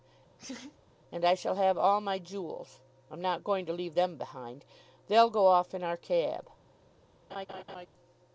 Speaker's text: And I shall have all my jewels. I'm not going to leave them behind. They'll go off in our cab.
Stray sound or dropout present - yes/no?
yes